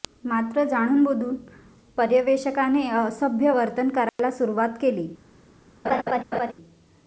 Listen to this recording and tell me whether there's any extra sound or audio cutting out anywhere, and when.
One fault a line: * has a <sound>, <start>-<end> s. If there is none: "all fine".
* has a dropout, 4.1-4.2 s
* has a laugh, 5.8-6.5 s